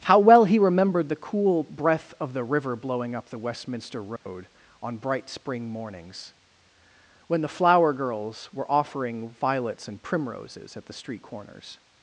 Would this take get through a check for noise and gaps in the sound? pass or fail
fail